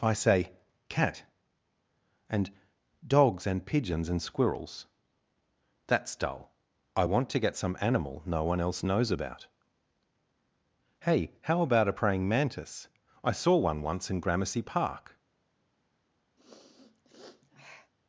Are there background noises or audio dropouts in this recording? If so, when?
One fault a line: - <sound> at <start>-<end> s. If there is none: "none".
- sniff at 16.4-17.9 s